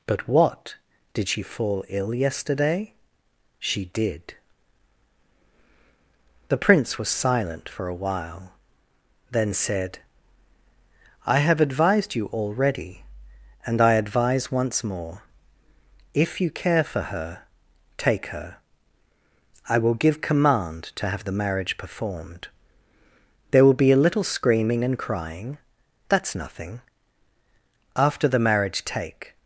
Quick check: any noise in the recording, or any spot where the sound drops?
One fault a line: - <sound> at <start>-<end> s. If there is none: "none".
none